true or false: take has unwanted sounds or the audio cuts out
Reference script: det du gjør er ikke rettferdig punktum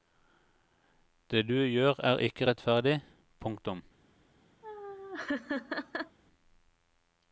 true